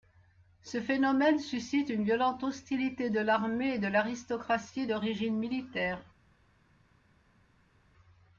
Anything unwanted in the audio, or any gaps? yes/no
no